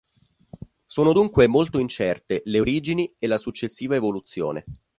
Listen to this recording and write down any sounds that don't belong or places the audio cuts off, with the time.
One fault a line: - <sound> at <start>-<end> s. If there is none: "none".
none